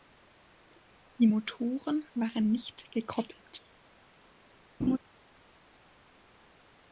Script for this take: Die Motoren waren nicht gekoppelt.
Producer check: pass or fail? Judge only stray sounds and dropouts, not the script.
fail